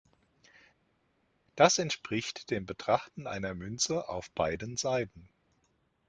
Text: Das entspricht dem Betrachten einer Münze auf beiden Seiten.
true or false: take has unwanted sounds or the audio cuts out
false